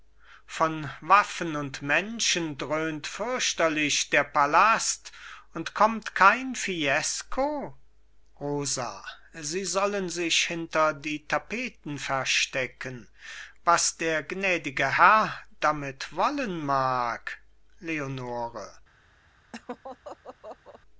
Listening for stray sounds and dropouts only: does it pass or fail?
fail